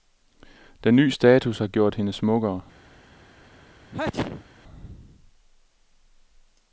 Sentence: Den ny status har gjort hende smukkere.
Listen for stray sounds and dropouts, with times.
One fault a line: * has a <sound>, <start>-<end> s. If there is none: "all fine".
* has a sneeze, 3.9-4.4 s